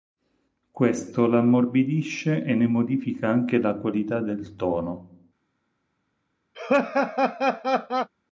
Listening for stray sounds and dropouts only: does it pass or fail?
fail